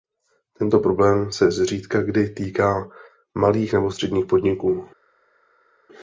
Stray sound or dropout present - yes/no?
no